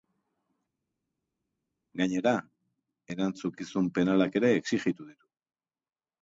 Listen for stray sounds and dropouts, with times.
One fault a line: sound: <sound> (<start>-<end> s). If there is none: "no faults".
no faults